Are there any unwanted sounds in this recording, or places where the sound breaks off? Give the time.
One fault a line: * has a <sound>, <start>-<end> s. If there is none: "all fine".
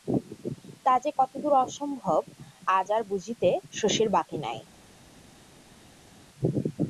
all fine